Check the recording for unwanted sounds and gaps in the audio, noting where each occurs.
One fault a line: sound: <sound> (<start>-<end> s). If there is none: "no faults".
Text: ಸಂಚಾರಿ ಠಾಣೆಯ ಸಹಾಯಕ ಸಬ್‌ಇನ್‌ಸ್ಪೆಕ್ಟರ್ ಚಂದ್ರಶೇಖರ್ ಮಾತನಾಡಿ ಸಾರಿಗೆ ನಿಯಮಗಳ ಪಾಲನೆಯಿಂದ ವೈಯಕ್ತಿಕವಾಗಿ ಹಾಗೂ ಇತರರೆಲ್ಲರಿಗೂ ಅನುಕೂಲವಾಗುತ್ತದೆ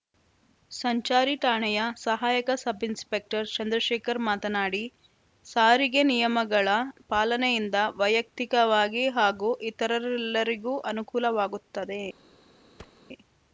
sound: thud (12.8-13.0 s)